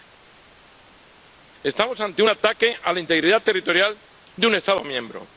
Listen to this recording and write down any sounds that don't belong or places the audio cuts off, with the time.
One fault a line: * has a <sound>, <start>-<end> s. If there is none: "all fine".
all fine